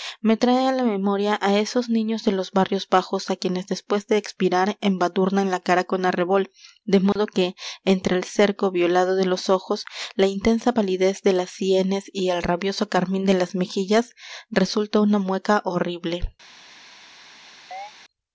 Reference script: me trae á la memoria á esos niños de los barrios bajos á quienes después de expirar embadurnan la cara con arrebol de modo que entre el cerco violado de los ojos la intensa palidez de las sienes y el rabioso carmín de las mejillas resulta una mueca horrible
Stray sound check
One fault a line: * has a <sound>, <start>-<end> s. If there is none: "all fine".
* has a dropout, 7.1-7.2 s
* has a chirp, 17.7-17.9 s